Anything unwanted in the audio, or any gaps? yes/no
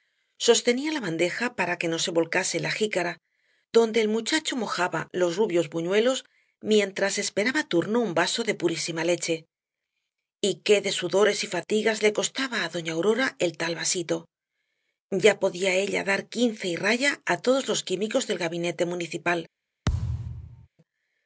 yes